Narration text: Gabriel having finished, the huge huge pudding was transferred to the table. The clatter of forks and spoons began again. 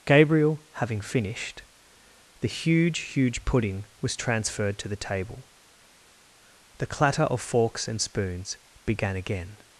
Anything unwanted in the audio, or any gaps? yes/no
no